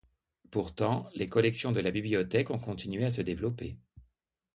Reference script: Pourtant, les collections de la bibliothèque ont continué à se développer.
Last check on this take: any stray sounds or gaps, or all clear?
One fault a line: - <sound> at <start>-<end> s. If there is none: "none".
none